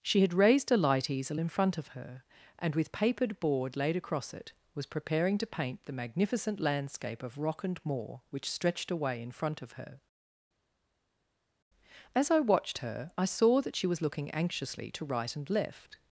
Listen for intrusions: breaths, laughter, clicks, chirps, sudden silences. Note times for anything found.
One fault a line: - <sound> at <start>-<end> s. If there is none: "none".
none